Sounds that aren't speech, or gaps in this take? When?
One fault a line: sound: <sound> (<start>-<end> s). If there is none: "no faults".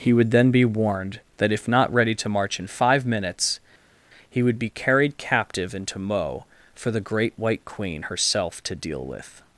no faults